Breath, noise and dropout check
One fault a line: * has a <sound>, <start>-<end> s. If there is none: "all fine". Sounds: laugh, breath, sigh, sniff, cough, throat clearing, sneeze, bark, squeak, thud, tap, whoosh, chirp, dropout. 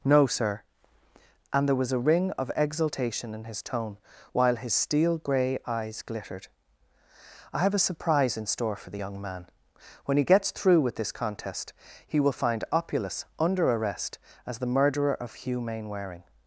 all fine